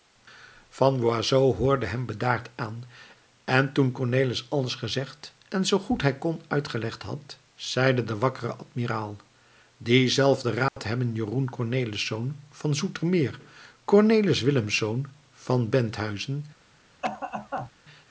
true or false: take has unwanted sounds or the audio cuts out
true